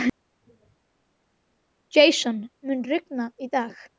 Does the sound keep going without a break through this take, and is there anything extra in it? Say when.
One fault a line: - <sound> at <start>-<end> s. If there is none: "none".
none